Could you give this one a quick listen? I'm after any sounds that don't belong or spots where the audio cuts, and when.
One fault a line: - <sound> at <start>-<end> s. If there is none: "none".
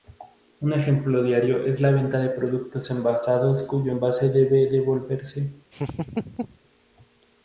- laugh at 5.7-6.6 s